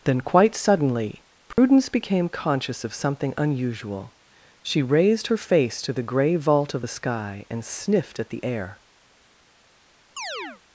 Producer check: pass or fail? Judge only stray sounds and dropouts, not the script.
fail